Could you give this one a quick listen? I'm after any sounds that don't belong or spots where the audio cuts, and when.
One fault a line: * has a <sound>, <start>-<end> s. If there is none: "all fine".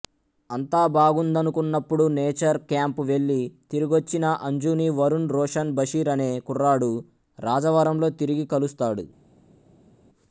all fine